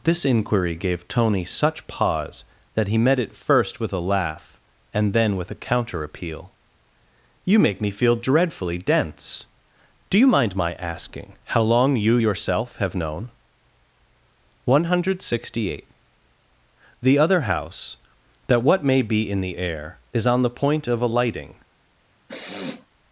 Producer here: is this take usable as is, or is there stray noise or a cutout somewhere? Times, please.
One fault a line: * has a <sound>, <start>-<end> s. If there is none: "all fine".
* has a sniff, 22.3-22.9 s